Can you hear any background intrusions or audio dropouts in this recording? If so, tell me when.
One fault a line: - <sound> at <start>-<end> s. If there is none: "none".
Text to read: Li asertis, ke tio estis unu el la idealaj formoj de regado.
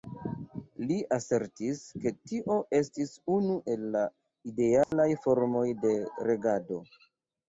- dropout at 4.8-4.9 s